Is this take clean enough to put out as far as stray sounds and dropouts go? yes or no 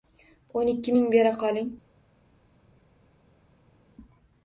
yes